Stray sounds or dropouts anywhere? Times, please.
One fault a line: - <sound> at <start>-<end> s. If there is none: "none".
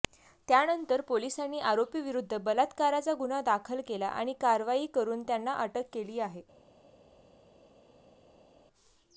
none